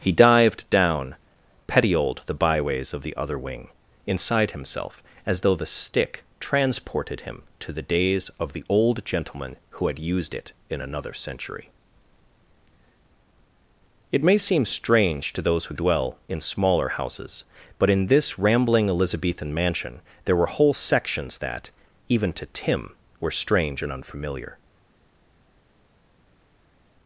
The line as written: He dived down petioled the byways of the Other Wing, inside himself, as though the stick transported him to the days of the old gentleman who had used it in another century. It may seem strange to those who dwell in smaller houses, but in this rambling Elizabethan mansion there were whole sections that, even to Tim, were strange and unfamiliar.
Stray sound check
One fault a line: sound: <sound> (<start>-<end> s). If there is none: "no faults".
no faults